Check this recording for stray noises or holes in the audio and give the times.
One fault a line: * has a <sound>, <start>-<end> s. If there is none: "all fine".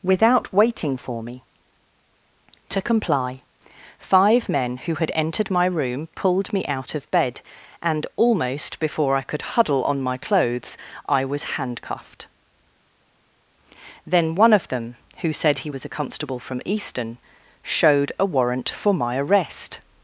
all fine